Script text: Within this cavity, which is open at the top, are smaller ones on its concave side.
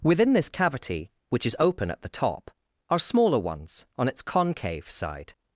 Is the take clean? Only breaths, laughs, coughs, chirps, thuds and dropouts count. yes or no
yes